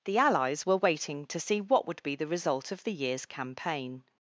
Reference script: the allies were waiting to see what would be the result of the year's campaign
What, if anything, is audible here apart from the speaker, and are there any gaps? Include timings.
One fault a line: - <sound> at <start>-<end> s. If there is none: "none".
none